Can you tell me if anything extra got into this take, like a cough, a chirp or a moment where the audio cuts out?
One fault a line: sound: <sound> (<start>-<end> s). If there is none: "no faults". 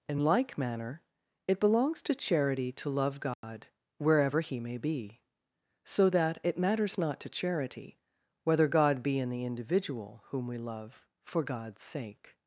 sound: dropout (3.3-3.4 s)